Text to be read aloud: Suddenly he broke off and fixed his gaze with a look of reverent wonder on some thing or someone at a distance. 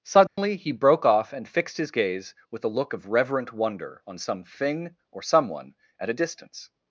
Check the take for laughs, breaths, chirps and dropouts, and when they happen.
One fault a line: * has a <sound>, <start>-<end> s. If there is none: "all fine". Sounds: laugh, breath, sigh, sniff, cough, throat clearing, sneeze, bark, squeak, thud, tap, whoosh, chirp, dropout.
* has a dropout, 0.3-0.4 s